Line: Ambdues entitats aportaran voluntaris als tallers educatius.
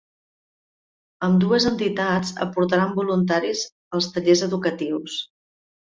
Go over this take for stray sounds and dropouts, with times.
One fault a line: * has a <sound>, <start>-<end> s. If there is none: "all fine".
all fine